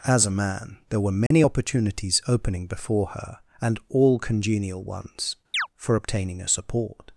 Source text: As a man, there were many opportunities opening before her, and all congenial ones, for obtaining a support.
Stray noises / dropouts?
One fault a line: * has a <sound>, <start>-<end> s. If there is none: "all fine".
* has a dropout, 1.3-1.3 s
* has a chirp, 5.5-5.7 s